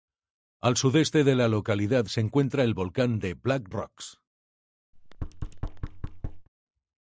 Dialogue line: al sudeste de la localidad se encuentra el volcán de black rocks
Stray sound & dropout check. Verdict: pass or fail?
fail